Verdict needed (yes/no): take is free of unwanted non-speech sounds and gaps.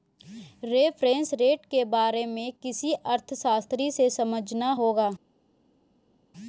yes